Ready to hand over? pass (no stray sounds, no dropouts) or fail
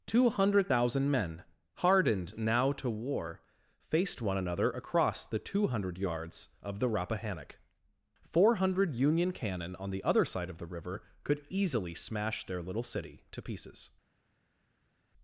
pass